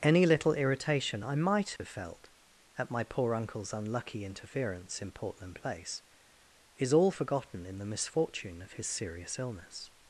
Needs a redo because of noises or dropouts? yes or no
yes